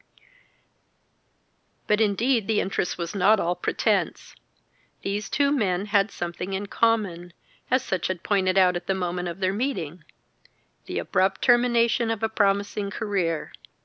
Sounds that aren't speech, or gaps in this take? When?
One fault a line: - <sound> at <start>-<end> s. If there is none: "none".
none